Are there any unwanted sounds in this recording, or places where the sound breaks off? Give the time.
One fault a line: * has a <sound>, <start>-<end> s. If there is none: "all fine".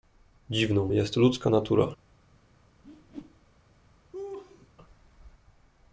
* has a whoosh, 2.8-3.6 s
* has a laugh, 4.1-4.7 s